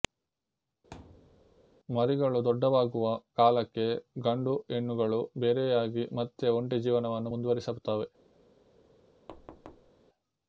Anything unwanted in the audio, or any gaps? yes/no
yes